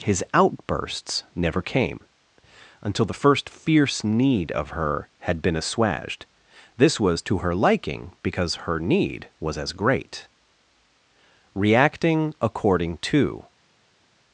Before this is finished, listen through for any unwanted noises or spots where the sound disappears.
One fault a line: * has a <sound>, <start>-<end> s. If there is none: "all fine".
all fine